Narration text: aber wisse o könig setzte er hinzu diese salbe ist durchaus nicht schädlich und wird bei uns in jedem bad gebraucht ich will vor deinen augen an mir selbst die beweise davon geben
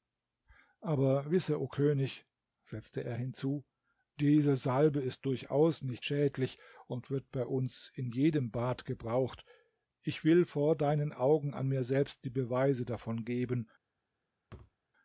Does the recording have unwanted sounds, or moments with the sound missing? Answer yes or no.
yes